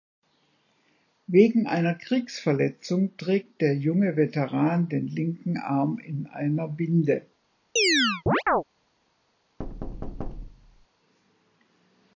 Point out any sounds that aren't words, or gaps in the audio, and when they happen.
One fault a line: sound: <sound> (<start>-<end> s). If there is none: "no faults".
sound: chirp (7.8-8.6 s)
sound: thud (9.6-10.9 s)